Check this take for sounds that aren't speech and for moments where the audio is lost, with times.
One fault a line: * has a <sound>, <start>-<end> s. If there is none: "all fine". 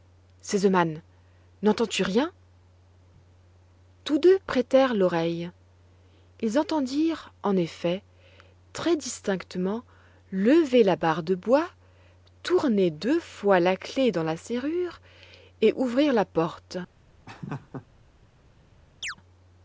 * has a laugh, 17.3-17.9 s
* has a chirp, 19.0-19.2 s